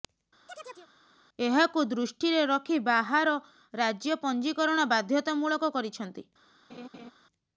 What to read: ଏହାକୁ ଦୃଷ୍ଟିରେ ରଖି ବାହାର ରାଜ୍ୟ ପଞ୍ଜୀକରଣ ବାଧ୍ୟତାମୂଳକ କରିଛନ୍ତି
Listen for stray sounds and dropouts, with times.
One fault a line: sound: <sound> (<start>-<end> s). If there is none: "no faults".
sound: chirp (0.5-0.9 s)
sound: laugh (6.7-7.1 s)